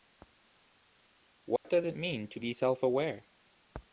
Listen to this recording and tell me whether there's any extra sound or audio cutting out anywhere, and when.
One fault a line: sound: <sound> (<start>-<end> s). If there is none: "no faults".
sound: dropout (1.6-1.7 s)